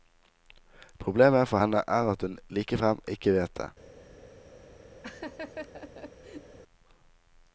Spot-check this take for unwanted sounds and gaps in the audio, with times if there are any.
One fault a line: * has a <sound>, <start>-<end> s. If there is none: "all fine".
* has a laugh, 5.0-6.6 s